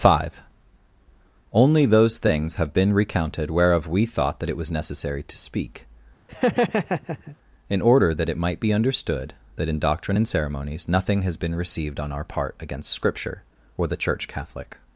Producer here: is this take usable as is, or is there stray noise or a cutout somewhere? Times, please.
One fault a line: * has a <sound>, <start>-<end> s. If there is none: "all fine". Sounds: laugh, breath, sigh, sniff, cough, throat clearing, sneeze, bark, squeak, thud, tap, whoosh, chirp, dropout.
* has a laugh, 6.3-7.4 s